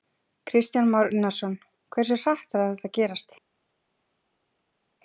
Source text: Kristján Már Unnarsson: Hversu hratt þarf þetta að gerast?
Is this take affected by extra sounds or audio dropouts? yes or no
no